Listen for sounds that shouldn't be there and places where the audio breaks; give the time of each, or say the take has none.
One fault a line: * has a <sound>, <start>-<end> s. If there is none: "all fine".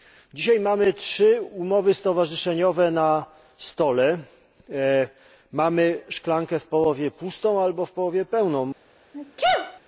* has a sneeze, 9.1-9.8 s